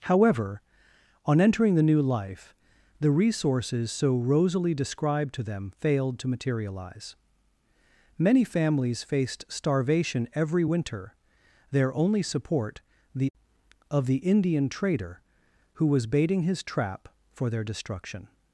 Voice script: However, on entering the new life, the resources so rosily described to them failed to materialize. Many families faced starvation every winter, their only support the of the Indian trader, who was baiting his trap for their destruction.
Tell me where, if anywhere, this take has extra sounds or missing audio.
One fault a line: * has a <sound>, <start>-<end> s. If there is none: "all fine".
all fine